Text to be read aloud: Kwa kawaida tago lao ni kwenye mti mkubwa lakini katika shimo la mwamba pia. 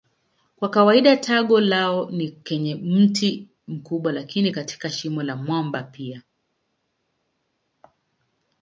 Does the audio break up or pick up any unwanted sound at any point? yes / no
no